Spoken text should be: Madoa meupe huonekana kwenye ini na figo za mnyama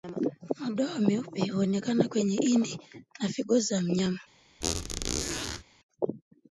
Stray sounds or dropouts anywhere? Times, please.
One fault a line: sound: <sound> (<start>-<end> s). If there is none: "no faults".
sound: squeak (4.6-5.6 s)